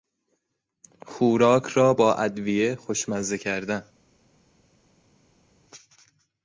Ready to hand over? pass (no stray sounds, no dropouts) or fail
pass